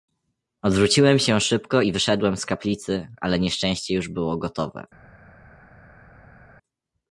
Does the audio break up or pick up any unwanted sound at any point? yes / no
no